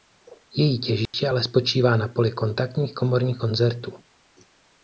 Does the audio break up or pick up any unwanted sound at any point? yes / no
yes